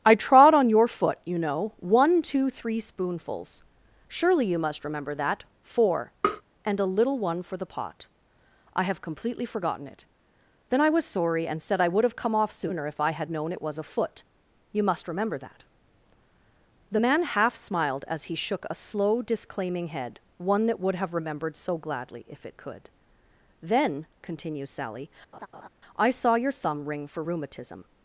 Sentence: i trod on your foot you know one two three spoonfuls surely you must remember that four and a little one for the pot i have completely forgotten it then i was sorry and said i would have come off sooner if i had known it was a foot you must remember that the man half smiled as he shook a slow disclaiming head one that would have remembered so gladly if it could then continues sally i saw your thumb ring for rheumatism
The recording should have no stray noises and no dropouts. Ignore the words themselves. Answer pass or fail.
fail